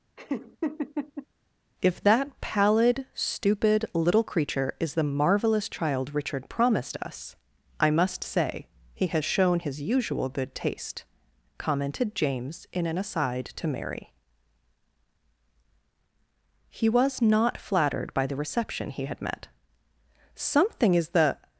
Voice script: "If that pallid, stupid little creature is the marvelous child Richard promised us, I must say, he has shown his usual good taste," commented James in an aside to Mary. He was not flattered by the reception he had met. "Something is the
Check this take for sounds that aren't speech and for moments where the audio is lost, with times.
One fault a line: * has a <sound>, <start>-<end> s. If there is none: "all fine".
* has a laugh, 0.2-1.3 s